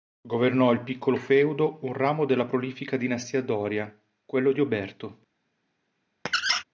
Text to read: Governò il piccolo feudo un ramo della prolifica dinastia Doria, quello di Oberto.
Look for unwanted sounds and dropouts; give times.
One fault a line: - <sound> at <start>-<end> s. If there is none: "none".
- squeak at 6.3-6.6 s